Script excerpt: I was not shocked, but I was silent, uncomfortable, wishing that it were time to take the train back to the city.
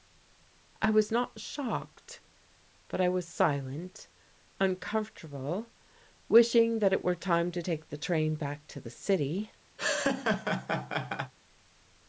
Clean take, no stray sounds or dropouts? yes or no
no